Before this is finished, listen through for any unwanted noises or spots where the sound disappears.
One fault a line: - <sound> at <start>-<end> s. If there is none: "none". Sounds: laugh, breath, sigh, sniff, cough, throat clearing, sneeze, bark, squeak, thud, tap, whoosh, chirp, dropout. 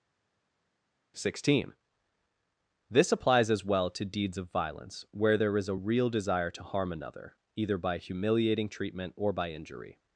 none